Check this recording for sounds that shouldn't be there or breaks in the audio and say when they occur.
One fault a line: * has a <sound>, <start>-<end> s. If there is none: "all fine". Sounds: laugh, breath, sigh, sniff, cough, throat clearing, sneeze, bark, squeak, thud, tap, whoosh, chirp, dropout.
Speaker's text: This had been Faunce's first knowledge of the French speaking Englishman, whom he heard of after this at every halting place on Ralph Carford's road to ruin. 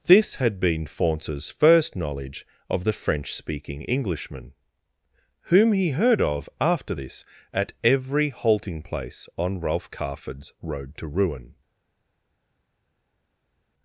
all fine